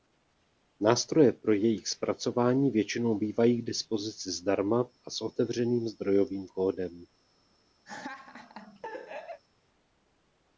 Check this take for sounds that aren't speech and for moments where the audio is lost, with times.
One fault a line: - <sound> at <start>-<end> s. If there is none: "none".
- laugh at 7.9-9.4 s